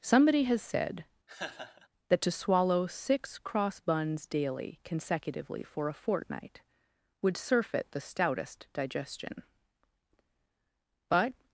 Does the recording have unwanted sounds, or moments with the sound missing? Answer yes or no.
yes